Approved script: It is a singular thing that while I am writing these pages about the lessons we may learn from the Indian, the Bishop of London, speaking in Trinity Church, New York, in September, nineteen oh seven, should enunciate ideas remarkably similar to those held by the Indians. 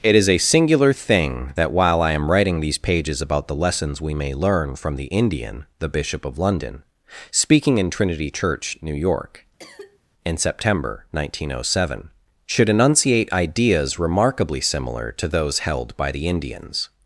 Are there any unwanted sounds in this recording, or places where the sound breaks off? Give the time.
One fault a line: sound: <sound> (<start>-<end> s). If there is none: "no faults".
sound: cough (9.6-10.0 s)